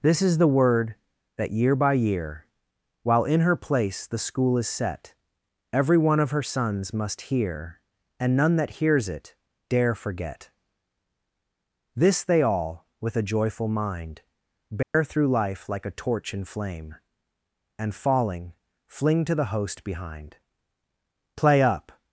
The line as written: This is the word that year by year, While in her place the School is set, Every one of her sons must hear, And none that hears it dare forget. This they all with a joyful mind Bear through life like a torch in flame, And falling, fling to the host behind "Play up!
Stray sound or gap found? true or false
true